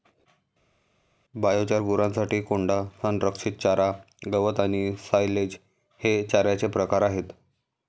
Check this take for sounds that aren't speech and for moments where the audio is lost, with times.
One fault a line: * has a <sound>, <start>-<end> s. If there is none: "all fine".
all fine